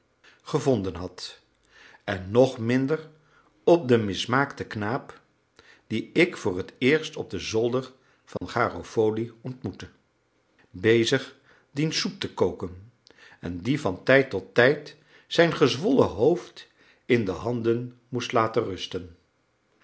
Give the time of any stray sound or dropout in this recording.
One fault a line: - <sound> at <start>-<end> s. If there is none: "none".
- dropout at 8.4-8.4 s